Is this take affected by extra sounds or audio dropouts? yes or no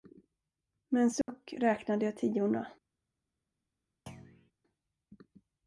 yes